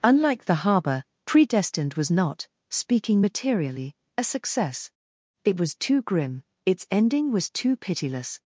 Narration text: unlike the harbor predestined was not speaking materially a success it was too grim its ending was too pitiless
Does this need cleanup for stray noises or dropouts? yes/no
no